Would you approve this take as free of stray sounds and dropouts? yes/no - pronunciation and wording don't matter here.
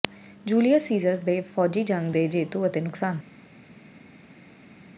yes